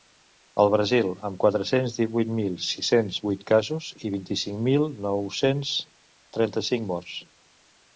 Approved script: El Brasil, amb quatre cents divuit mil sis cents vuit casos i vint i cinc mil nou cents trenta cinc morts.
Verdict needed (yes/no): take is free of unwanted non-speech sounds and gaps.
yes